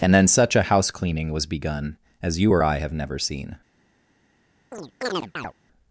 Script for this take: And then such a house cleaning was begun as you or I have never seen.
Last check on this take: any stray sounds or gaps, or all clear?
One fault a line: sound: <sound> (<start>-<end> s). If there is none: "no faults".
sound: chirp (4.7-5.5 s)